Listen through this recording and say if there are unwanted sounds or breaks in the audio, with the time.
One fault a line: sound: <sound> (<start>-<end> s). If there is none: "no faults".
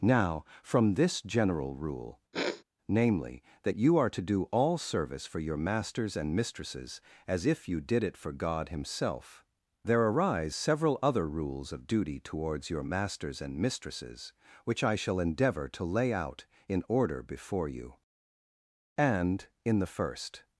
sound: sniff (2.3-2.6 s)